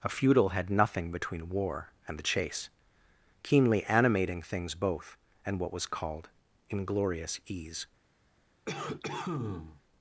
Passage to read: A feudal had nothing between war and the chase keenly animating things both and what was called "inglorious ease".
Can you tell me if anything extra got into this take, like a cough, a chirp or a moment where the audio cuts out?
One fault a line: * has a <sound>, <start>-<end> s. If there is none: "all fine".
* has a cough, 8.7-9.8 s